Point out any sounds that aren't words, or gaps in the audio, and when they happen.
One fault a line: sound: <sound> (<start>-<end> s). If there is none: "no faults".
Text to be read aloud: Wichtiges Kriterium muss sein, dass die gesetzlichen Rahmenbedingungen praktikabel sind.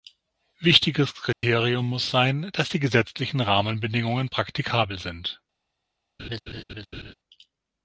sound: dropout (1.3-1.4 s)
sound: laugh (6.2-7.1 s)